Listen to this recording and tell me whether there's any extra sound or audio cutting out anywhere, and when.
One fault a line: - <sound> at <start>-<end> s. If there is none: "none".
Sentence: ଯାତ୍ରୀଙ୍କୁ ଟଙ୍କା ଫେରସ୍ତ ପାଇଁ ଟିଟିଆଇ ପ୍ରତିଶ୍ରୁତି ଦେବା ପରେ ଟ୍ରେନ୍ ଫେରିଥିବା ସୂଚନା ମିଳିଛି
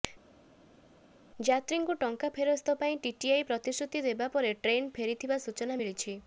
none